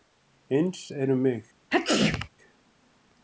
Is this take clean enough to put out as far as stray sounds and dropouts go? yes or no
no